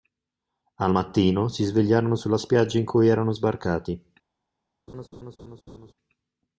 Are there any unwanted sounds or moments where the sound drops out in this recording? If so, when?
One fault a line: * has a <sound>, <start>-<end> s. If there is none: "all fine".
* has a laugh, 4.9-5.9 s